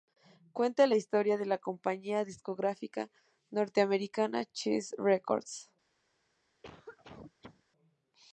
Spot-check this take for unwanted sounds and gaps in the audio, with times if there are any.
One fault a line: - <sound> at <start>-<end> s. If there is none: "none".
- cough at 6.6-7.6 s